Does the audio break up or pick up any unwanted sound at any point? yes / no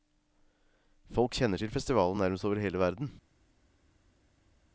no